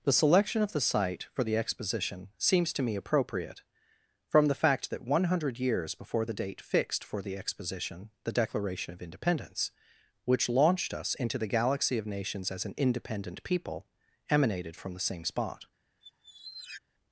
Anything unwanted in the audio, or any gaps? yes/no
yes